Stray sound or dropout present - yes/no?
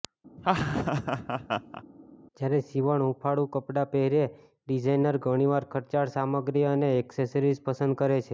yes